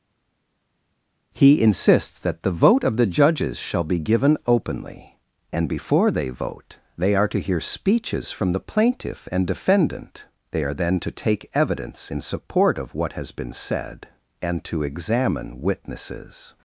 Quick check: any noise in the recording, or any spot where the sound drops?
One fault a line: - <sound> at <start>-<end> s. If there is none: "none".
none